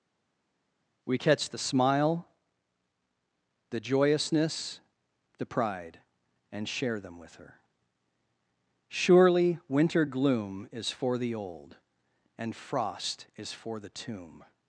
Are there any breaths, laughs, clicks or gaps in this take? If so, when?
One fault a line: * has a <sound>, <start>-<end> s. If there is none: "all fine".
all fine